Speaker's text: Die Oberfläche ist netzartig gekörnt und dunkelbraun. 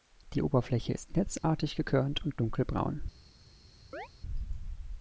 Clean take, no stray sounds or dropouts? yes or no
no